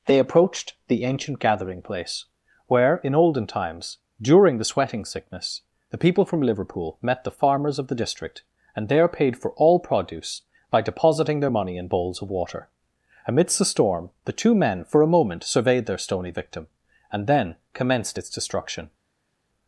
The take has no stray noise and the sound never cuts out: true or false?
true